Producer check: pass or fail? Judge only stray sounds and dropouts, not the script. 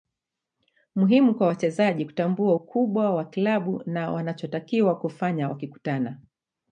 pass